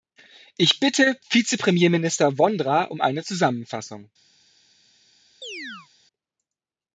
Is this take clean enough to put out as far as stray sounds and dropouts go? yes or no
no